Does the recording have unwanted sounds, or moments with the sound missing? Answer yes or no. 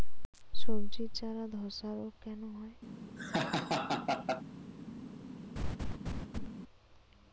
yes